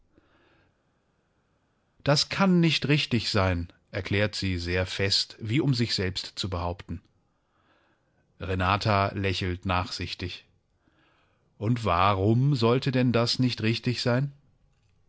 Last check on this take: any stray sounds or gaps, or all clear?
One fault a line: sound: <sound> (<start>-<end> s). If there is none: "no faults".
no faults